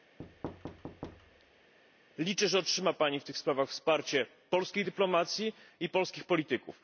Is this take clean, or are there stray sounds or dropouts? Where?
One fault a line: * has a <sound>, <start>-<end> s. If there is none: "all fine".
* has a thud, 0.2-1.7 s